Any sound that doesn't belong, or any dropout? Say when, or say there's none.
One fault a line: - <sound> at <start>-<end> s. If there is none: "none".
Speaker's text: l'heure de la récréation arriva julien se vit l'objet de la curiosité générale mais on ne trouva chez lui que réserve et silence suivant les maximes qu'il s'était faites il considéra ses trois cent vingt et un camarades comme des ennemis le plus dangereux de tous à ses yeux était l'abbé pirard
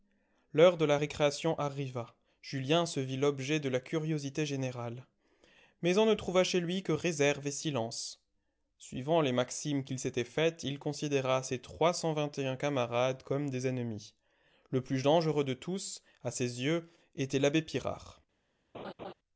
- laugh at 18.7-19.1 s